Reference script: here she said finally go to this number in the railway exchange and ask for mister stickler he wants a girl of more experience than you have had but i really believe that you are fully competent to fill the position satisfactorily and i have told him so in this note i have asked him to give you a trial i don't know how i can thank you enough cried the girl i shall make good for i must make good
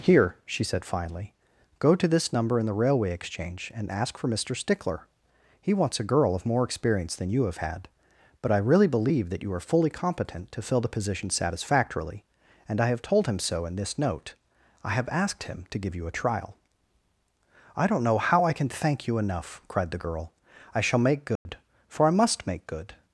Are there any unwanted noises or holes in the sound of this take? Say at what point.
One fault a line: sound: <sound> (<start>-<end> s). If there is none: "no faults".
sound: dropout (21.4-21.5 s)